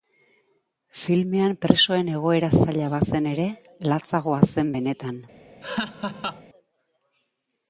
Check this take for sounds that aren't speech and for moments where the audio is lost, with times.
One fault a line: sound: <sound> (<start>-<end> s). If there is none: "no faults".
sound: laugh (5.6-6.4 s)